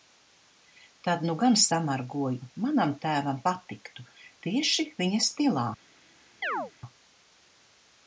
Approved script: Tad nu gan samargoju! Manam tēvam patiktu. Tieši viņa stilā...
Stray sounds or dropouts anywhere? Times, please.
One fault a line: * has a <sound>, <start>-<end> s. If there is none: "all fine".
* has a chirp, 6.4-6.7 s